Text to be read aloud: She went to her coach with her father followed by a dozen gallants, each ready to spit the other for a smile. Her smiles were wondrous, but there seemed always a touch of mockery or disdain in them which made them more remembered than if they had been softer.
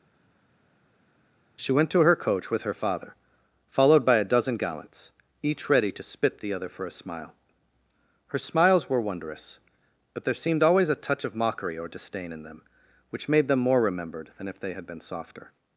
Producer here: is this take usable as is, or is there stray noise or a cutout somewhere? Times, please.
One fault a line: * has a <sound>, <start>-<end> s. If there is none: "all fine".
all fine